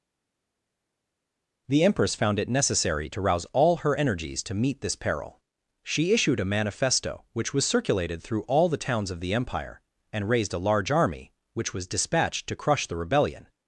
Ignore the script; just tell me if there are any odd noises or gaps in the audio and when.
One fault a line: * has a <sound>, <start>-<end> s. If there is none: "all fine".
all fine